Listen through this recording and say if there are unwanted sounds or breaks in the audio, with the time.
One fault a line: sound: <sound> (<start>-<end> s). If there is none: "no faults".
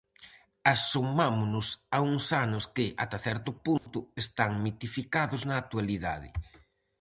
sound: dropout (3.8-3.9 s)